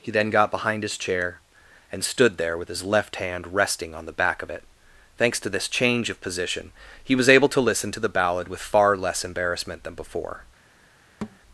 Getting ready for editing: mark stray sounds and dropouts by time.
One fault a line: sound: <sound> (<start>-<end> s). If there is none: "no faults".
sound: thud (11.2-11.4 s)